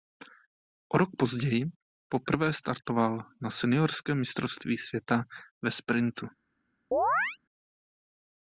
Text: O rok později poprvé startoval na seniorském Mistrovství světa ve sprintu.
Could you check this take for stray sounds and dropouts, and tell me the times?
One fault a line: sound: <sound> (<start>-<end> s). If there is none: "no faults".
sound: chirp (6.9-7.4 s)